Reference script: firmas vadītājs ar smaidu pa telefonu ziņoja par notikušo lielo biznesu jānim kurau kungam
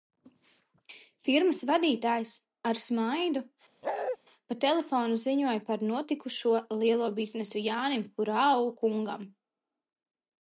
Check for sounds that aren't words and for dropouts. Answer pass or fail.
fail